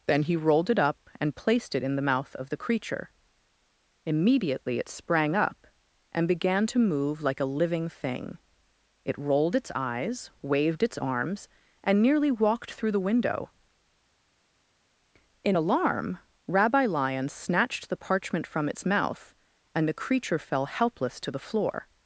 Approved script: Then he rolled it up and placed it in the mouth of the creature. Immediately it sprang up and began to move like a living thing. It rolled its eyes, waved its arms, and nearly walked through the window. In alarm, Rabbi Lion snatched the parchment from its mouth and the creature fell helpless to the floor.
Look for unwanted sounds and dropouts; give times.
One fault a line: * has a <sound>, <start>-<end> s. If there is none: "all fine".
all fine